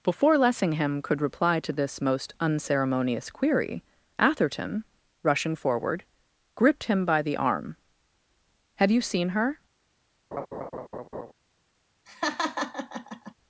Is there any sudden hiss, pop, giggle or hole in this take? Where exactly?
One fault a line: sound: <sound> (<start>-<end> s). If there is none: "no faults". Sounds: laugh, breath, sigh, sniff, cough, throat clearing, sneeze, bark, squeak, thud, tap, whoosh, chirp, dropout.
sound: laugh (10.3-11.3 s)
sound: laugh (12.1-13.3 s)